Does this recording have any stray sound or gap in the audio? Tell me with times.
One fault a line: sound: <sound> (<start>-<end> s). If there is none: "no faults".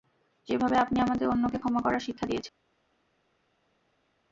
no faults